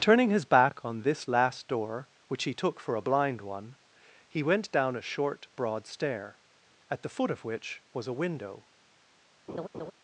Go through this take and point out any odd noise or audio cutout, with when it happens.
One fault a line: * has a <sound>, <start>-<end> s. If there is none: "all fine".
* has a laugh, 9.5-9.9 s